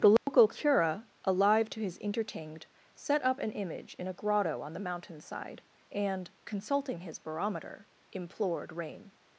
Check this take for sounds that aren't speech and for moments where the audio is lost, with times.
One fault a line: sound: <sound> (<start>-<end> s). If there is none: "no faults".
sound: dropout (0.2-0.3 s)